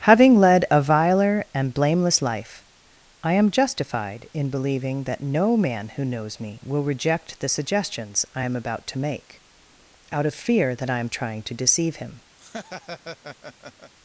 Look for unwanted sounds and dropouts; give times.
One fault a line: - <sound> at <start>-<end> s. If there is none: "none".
- laugh at 12.4-13.9 s